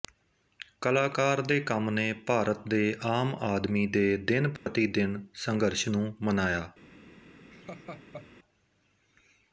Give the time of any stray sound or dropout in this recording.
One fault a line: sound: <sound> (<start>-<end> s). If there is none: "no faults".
sound: dropout (4.6-4.7 s)
sound: laugh (7.5-8.3 s)